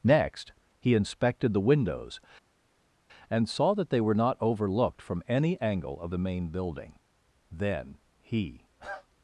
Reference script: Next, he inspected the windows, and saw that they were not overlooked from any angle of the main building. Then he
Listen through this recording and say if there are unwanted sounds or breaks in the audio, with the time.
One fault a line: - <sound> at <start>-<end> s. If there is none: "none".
none